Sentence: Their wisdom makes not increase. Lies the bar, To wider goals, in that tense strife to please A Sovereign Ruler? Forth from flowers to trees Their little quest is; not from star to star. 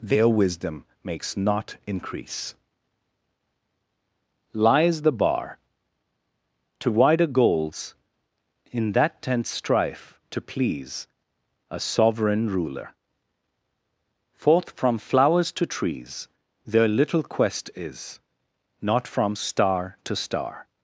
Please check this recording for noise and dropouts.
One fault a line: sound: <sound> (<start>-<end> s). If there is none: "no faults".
no faults